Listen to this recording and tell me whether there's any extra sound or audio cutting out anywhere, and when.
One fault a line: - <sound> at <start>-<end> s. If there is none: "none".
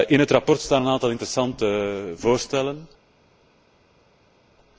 none